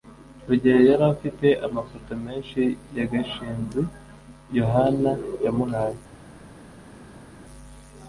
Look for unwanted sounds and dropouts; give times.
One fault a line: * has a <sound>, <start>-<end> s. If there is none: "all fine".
all fine